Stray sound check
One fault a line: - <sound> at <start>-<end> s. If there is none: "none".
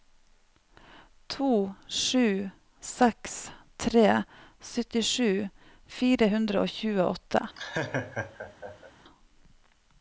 - laugh at 7.6-8.9 s